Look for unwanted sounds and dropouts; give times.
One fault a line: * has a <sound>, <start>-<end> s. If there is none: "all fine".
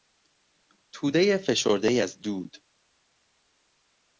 all fine